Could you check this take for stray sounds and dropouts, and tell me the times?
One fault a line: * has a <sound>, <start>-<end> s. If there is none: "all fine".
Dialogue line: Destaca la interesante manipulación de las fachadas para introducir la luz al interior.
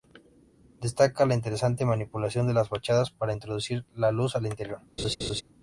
* has a laugh, 5.0-5.4 s